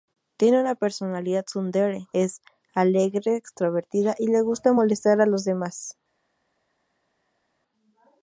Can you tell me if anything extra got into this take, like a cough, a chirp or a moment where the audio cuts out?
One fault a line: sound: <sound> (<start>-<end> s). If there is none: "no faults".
no faults